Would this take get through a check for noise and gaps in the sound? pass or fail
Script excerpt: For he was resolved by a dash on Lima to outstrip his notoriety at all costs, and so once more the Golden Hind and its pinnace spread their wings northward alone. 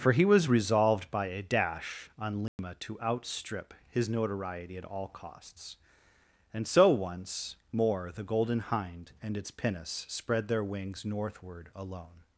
fail